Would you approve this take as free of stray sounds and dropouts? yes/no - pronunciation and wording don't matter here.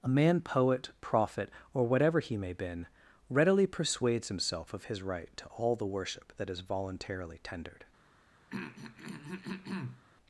no